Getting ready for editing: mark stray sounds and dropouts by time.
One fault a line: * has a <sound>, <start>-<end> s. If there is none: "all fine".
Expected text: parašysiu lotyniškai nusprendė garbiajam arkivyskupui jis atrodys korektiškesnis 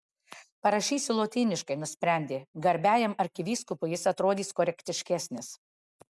all fine